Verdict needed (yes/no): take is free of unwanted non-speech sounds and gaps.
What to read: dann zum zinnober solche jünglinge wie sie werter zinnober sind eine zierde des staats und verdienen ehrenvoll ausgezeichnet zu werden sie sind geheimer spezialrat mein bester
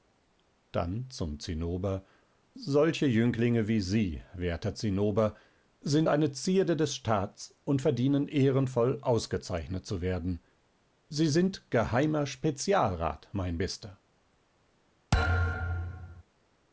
no